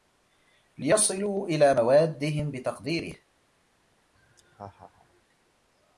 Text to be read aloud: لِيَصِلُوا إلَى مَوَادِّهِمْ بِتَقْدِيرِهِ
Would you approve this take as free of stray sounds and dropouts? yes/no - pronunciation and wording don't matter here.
no